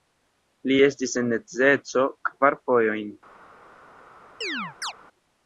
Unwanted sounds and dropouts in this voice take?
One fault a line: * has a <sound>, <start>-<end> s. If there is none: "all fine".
* has a chirp, 4.4-4.9 s